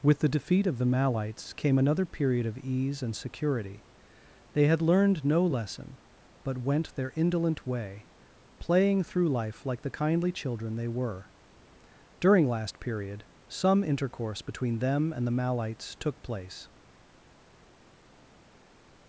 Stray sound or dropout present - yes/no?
no